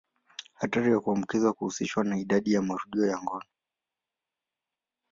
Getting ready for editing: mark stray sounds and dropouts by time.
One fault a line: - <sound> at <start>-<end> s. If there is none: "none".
none